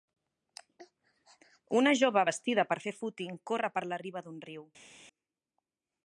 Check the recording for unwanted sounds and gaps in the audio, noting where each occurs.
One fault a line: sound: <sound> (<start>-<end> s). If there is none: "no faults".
no faults